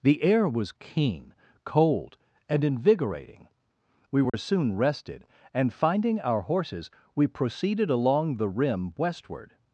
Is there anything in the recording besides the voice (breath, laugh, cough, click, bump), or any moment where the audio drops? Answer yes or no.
yes